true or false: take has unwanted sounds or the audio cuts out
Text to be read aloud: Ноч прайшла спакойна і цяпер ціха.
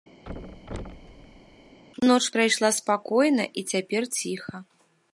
true